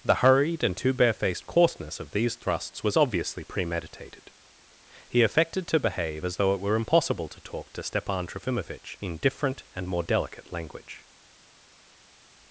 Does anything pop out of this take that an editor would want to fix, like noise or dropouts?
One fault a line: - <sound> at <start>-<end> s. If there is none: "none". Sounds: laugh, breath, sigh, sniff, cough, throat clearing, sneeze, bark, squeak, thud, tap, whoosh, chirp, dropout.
none